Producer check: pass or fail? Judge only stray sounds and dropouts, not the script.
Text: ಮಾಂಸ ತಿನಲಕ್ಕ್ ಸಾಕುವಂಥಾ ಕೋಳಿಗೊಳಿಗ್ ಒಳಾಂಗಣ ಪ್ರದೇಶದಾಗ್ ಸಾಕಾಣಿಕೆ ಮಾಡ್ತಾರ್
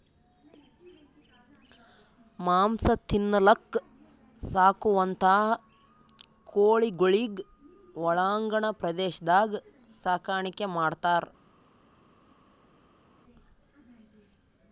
pass